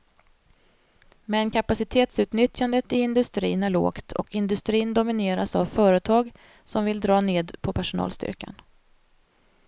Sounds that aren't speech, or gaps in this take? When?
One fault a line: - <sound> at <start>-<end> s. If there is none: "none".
none